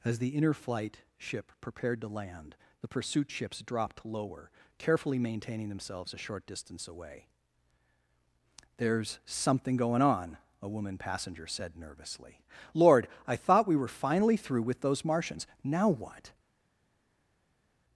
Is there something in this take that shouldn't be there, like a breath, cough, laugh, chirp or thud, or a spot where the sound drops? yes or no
no